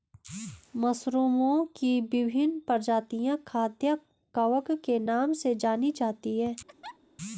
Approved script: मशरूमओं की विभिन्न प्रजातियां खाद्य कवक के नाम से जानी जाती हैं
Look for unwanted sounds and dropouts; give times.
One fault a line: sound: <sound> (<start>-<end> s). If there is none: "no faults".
sound: laugh (6.7-7.0 s)